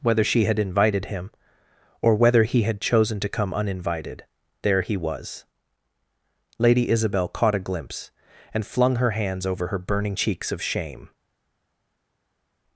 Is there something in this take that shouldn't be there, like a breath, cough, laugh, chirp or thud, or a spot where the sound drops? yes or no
no